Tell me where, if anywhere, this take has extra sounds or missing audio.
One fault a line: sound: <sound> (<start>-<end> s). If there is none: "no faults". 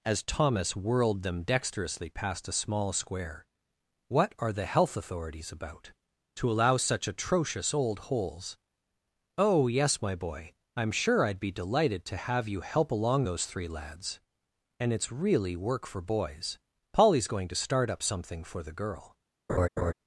sound: laugh (19.5-19.9 s)